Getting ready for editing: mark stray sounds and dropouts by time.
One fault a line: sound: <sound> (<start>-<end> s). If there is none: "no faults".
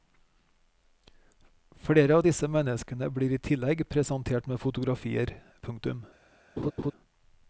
sound: laugh (6.6-6.9 s)